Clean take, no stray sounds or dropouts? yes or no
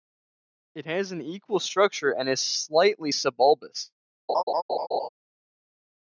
no